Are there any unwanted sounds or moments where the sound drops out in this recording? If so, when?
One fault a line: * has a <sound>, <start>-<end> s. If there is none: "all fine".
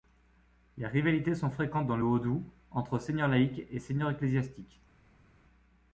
all fine